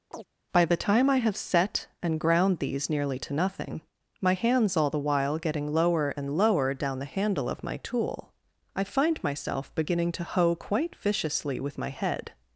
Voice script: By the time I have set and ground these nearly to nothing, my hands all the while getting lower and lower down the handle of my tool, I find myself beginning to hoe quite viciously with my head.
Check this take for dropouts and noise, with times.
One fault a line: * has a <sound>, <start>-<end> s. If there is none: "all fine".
* has a chirp, 0.1-0.3 s